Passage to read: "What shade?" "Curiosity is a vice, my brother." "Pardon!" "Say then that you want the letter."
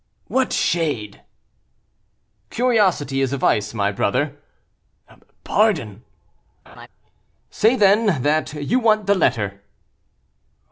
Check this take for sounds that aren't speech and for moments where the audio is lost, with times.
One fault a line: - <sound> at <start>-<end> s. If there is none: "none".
- laugh at 6.7-6.9 s